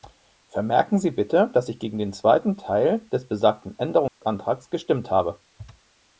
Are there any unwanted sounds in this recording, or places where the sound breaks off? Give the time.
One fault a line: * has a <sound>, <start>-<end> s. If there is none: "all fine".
* has a dropout, 4.1-4.2 s